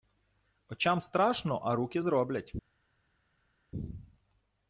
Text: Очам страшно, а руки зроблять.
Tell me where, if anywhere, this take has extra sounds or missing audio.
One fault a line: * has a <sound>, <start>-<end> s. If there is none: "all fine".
all fine